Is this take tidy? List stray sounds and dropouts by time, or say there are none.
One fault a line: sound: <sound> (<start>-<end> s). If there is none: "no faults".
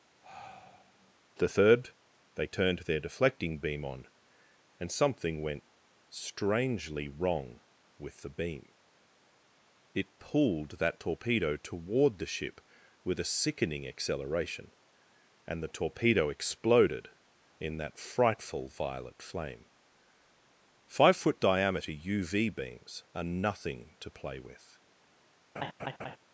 sound: sigh (0.2-1.1 s)
sound: laugh (25.6-26.2 s)